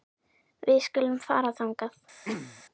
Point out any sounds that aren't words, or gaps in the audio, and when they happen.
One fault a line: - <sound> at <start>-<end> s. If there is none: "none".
- throat clearing at 2.2-2.6 s